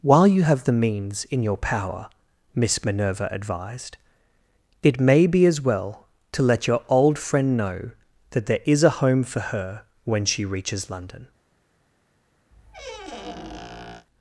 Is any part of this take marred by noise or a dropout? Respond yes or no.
yes